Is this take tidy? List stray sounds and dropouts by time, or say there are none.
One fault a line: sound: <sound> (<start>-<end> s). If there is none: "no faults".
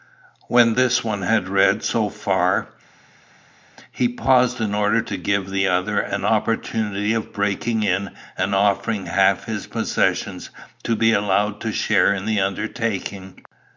no faults